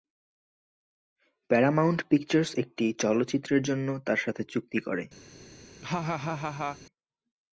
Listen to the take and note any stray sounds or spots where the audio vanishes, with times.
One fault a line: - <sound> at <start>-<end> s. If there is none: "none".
- laugh at 5.8-6.8 s